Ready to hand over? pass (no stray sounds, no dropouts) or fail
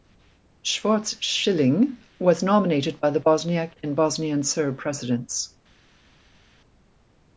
pass